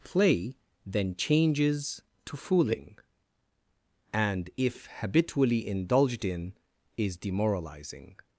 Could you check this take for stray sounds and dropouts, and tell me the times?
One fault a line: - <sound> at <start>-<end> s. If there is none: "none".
none